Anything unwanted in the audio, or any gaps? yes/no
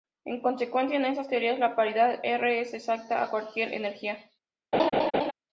yes